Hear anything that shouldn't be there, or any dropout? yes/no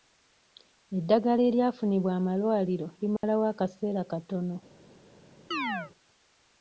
yes